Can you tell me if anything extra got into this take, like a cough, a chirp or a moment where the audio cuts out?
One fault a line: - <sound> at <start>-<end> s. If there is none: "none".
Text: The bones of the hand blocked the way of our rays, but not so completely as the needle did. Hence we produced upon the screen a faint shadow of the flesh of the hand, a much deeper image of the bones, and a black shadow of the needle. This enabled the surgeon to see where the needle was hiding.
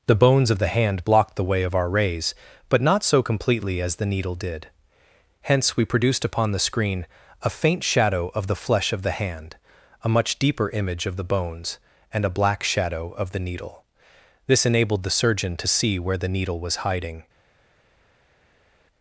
none